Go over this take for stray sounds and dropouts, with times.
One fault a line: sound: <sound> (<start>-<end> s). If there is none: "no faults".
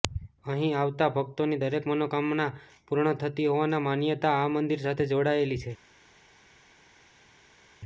no faults